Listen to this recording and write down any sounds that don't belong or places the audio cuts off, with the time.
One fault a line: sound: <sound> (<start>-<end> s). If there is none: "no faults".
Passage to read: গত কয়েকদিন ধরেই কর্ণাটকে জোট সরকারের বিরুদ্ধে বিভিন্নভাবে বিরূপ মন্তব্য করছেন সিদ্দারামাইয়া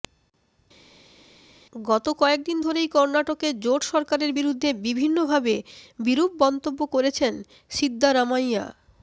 no faults